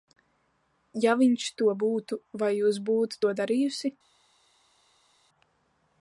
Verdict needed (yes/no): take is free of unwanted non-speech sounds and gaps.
yes